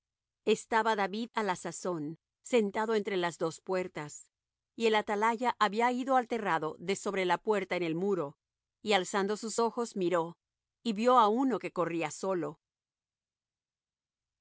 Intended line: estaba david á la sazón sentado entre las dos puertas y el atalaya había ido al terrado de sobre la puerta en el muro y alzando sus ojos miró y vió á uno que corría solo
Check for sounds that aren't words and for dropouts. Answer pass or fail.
pass